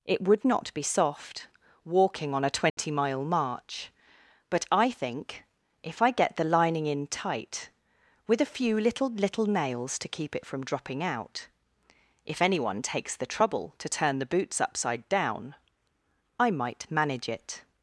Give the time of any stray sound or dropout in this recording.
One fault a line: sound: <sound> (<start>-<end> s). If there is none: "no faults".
sound: dropout (2.7-2.8 s)